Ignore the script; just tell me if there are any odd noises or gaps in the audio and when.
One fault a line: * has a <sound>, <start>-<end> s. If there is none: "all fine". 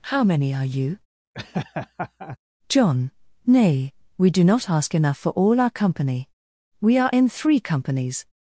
* has a laugh, 1.3-2.4 s